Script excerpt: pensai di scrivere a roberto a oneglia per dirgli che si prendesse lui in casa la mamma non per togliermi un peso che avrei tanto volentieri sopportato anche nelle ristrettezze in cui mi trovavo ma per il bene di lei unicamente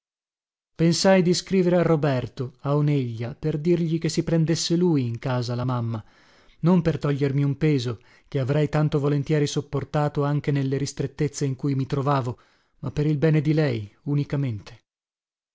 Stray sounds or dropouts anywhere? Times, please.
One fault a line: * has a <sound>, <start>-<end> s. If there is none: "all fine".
all fine